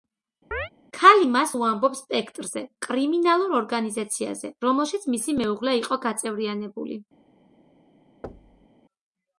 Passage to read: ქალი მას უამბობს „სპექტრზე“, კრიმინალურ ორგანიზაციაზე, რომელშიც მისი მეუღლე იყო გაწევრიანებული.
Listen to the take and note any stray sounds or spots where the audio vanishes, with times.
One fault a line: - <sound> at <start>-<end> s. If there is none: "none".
- chirp at 0.5-0.7 s
- thud at 8.2-8.7 s